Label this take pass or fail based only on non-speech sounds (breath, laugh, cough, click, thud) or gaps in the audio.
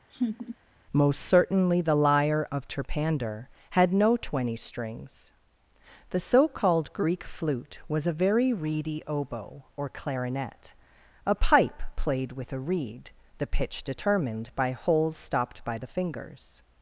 fail